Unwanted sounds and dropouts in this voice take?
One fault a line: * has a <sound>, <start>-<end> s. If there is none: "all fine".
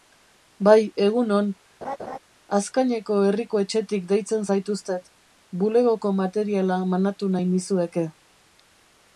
* has a laugh, 1.8-2.2 s